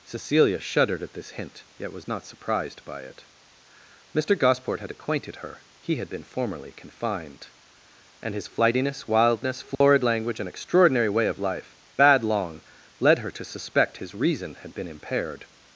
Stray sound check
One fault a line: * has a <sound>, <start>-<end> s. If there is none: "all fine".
* has a dropout, 9.7-9.8 s